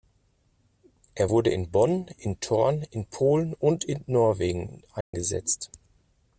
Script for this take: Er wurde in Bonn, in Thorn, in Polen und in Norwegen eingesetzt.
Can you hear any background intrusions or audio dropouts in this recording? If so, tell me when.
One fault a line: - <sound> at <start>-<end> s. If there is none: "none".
- dropout at 5.0-5.1 s